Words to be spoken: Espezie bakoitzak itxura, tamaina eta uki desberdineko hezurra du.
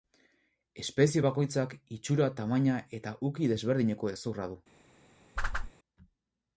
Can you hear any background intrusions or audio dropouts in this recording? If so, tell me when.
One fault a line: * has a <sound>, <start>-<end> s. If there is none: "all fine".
* has a whoosh, 5.4-5.7 s